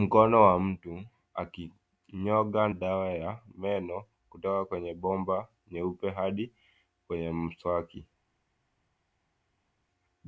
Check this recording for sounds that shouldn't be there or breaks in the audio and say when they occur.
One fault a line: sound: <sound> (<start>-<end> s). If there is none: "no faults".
no faults